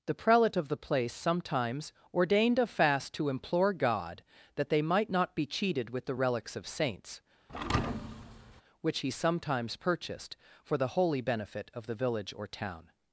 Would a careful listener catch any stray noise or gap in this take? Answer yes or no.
yes